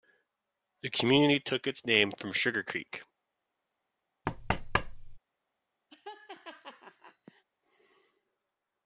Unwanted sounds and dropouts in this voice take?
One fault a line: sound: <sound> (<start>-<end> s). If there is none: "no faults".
sound: thud (4.3-5.2 s)
sound: laugh (5.9-7.4 s)